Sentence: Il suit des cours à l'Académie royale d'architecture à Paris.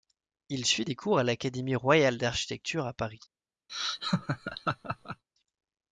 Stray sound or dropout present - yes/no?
yes